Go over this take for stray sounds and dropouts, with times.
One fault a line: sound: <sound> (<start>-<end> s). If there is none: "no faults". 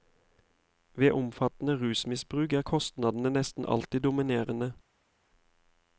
no faults